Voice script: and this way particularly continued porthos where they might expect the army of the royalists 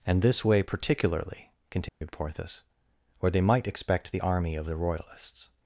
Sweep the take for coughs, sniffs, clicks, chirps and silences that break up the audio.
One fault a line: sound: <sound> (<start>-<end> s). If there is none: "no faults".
sound: dropout (1.9-2.0 s)